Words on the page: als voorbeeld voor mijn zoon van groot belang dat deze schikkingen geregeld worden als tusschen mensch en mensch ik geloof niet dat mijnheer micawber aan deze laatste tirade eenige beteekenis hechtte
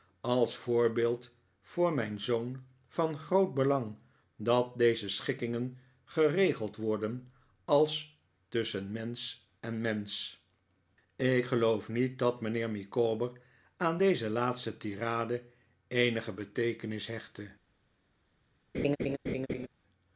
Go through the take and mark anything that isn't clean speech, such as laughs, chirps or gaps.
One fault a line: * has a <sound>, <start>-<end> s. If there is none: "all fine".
* has a laugh, 18.7-19.7 s